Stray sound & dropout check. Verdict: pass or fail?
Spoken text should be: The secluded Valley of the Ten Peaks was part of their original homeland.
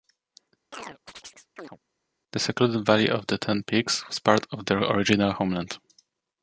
fail